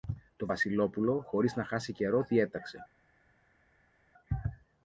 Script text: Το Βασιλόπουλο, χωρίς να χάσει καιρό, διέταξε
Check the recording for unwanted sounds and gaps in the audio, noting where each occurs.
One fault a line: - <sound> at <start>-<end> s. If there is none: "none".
none